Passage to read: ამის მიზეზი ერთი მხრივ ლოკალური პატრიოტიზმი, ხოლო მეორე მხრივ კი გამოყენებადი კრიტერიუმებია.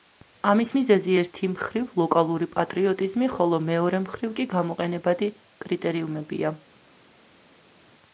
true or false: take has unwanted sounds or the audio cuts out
false